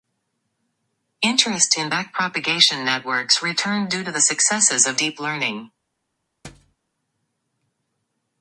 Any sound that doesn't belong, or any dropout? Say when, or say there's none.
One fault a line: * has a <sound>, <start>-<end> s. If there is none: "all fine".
* has a thud, 6.4-6.8 s